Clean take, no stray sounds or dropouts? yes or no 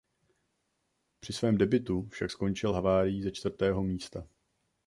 yes